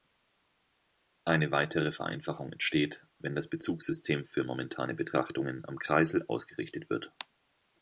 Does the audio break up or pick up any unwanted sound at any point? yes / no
no